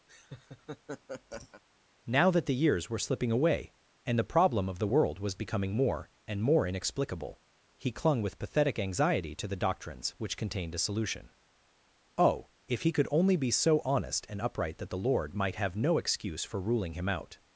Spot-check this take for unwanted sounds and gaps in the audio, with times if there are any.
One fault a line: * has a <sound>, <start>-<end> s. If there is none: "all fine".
* has a laugh, 0.1-1.6 s